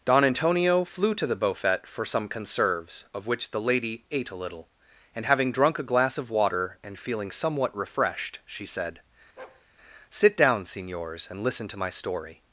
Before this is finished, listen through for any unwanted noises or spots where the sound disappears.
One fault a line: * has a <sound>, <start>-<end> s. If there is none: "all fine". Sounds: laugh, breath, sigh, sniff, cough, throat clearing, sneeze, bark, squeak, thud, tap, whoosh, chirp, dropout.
* has a bark, 9.4-9.7 s